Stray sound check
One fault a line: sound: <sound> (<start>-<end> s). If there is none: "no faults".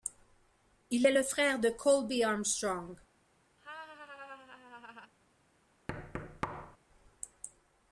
sound: laugh (3.6-5.1 s)
sound: thud (5.9-6.8 s)